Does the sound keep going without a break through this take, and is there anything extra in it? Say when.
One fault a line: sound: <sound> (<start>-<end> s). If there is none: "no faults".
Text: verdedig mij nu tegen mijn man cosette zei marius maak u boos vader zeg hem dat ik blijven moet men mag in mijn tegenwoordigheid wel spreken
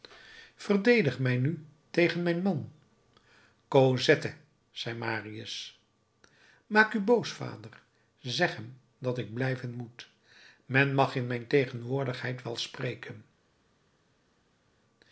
no faults